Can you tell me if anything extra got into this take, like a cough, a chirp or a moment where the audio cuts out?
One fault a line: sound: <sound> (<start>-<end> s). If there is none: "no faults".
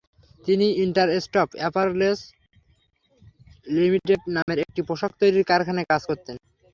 sound: dropout (4.4-4.5 s)